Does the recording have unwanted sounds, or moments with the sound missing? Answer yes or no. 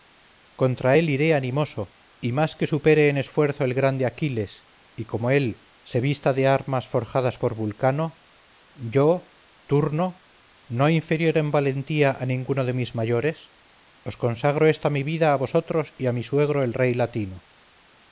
no